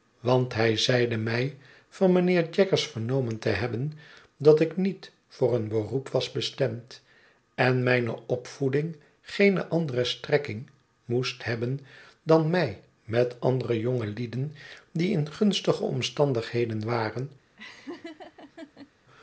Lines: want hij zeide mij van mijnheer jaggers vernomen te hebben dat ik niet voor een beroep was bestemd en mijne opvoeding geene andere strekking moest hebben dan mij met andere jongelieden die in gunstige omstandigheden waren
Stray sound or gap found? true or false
true